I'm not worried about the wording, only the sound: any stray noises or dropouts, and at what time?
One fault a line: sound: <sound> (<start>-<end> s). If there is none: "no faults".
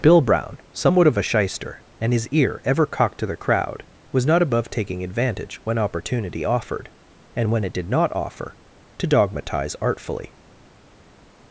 no faults